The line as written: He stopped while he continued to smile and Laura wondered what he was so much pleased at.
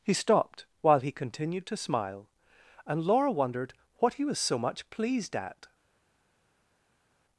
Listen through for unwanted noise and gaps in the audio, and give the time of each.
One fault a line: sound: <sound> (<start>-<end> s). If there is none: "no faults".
no faults